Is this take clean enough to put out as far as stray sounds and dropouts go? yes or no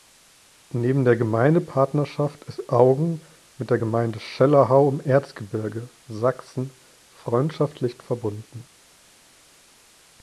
yes